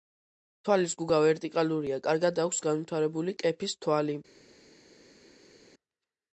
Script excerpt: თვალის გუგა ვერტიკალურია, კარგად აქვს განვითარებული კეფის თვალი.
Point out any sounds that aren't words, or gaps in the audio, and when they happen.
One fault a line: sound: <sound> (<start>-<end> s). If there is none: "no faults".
no faults